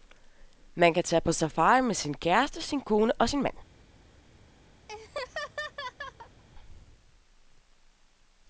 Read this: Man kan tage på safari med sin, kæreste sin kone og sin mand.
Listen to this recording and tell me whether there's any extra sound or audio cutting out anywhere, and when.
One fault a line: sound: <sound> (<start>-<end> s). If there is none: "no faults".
sound: laugh (4.9-6.4 s)